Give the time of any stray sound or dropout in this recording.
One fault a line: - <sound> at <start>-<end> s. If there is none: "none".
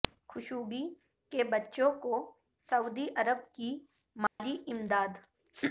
- dropout at 4.3-4.4 s